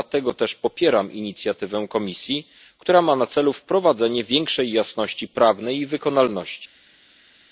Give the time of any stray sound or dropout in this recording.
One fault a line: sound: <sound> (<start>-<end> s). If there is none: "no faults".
no faults